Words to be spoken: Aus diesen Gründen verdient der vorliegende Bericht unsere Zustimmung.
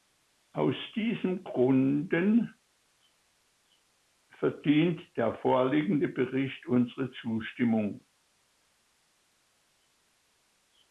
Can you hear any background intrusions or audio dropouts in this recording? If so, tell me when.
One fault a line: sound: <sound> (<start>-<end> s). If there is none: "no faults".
no faults